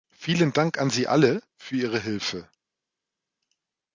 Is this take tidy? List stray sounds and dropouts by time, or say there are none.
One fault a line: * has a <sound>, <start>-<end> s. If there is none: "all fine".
all fine